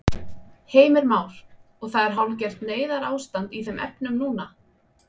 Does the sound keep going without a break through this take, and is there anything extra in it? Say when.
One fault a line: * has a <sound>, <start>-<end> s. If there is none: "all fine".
all fine